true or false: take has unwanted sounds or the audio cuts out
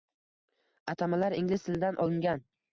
false